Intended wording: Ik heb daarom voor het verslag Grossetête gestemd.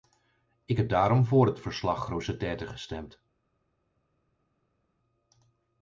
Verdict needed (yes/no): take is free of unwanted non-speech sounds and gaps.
yes